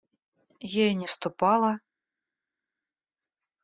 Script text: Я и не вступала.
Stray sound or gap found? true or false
false